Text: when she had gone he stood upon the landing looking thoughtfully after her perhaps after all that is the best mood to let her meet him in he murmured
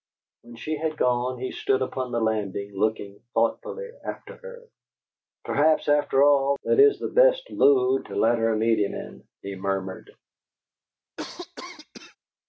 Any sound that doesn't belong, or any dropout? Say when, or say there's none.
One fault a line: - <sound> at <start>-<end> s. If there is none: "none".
- cough at 11.2-12.2 s